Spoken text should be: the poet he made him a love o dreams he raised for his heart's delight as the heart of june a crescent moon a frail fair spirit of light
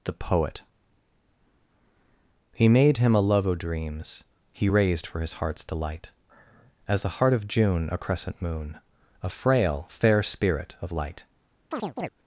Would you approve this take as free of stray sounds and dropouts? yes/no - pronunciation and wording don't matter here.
no